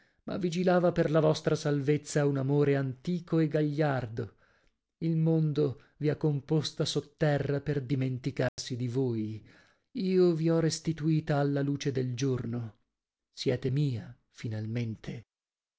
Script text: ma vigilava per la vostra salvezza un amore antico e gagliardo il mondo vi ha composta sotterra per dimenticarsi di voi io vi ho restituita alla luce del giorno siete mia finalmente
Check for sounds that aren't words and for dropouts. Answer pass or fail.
fail